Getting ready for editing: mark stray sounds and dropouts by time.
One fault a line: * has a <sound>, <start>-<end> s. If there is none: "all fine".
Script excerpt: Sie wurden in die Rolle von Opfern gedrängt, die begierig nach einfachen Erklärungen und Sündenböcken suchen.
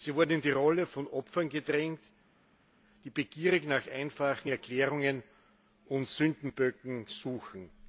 all fine